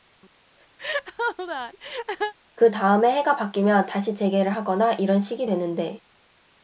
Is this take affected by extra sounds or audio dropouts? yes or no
yes